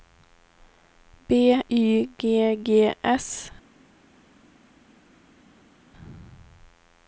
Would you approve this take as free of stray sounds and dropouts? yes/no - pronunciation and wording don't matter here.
yes